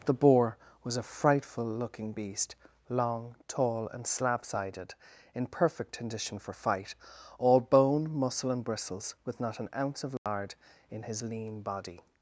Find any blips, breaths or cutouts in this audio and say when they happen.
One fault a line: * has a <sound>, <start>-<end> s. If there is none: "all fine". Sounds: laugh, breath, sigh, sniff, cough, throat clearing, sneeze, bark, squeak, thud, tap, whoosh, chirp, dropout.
* has a dropout, 10.2-10.3 s